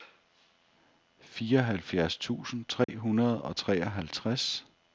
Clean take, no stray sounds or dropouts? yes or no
no